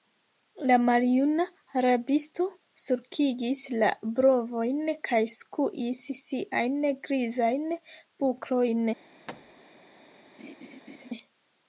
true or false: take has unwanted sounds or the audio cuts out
true